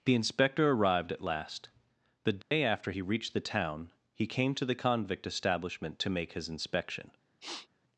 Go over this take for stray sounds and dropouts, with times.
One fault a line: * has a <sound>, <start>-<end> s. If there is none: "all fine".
* has a dropout, 2.4-2.5 s
* has a sniff, 7.4-7.7 s